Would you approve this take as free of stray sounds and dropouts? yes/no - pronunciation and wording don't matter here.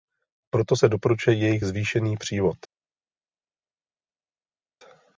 yes